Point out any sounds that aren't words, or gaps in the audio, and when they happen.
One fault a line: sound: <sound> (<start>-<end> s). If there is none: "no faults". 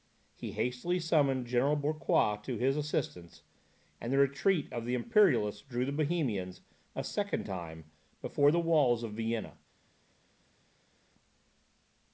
no faults